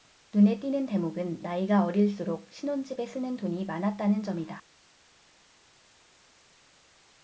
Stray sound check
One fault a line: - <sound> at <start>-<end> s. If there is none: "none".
none